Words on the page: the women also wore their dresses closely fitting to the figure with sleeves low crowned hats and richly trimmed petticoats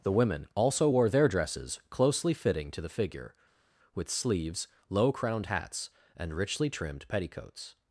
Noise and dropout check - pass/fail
pass